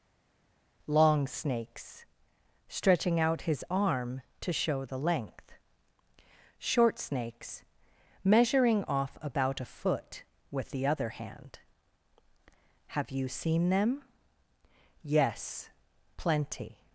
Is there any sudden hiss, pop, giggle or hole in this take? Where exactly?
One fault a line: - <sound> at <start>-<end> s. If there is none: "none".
none